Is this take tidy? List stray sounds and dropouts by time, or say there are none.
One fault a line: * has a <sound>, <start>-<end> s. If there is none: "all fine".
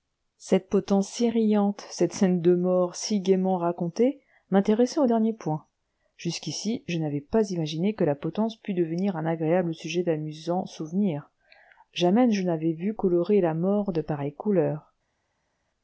all fine